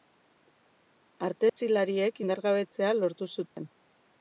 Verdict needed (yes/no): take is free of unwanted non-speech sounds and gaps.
no